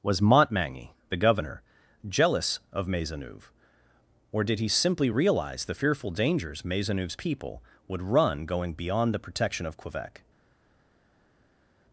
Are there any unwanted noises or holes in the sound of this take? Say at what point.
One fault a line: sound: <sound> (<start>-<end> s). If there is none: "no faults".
no faults